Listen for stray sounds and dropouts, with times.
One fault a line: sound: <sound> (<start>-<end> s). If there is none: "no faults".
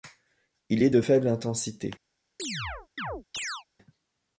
sound: chirp (2.4-3.6 s)